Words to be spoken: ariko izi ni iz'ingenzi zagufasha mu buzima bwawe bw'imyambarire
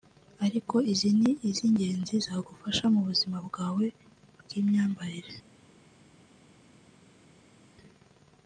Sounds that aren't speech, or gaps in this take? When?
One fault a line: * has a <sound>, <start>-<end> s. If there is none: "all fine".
all fine